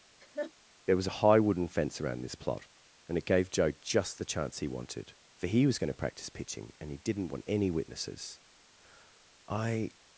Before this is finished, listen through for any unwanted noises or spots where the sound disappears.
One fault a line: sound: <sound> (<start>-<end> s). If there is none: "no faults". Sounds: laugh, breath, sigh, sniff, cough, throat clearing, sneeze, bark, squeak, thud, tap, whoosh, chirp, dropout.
sound: laugh (0.2-0.5 s)